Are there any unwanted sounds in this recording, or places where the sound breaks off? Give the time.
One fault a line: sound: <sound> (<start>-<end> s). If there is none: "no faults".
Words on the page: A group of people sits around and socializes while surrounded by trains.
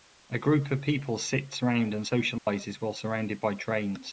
sound: dropout (2.4-2.5 s)